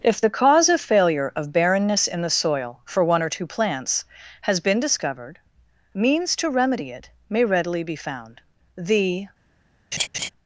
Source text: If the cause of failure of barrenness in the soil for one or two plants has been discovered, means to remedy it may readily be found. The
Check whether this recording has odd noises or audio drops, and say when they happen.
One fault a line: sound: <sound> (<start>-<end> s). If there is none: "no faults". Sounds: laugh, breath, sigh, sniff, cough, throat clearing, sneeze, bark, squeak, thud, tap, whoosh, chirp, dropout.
sound: laugh (9.9-10.3 s)